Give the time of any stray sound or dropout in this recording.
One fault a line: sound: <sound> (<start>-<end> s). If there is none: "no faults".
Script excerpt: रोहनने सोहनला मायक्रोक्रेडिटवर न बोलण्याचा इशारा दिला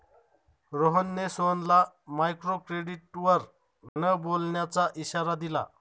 sound: dropout (3.9-4.0 s)